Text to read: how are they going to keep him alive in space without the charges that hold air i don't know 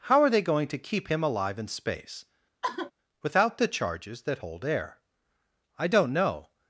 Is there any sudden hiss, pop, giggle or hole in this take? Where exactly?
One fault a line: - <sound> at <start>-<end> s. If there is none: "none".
- sigh at 2.6-2.9 s